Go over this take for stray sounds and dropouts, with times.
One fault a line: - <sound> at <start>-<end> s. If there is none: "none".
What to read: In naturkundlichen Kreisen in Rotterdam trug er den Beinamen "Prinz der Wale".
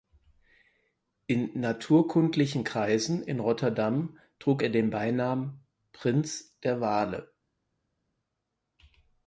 none